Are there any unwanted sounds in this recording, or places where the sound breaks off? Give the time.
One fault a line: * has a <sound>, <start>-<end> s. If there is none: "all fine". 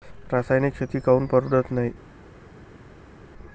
all fine